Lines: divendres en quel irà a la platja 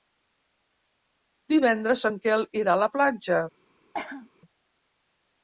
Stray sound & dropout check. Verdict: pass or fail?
fail